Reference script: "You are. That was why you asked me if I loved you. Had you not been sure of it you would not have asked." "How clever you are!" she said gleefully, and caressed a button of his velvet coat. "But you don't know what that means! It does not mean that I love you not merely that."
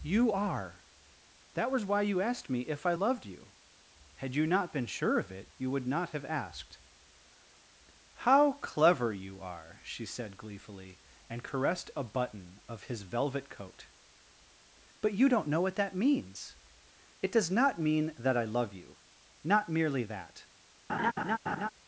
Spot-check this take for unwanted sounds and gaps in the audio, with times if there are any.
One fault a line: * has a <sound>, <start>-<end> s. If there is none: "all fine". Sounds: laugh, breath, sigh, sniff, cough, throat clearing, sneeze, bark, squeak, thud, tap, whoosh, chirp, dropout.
* has a laugh, 20.9-21.7 s